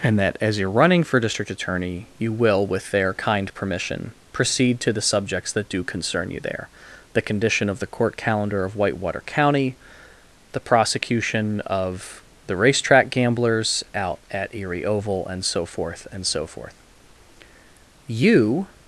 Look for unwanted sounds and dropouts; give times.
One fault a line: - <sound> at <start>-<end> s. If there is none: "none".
none